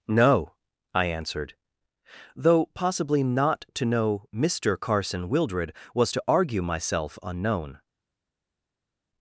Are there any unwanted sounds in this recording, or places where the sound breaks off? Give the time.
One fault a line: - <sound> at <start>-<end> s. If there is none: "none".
none